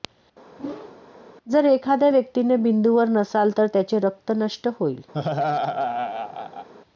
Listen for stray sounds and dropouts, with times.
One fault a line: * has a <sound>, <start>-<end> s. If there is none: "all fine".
* has a whoosh, 0.6-1.0 s
* has a laugh, 5.1-6.7 s